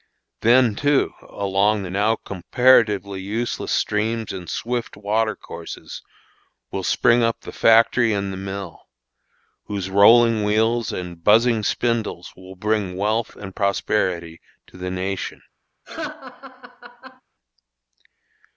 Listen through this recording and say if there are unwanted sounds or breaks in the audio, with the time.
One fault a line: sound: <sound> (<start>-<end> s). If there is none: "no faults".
sound: laugh (15.8-17.2 s)